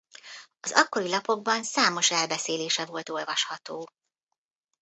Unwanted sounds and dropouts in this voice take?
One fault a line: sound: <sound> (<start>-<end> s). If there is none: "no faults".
no faults